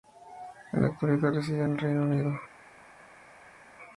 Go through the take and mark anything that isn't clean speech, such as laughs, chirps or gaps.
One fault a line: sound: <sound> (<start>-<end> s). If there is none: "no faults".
no faults